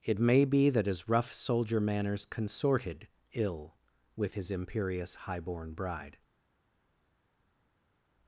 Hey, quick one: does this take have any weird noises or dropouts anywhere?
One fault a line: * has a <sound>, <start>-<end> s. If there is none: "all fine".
all fine